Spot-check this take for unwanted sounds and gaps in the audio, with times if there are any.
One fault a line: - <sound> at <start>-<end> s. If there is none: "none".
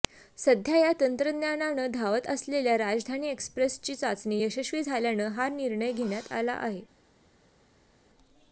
none